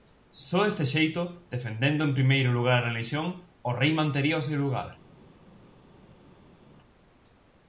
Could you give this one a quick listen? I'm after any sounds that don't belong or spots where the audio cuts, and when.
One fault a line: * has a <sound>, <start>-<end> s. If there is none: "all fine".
all fine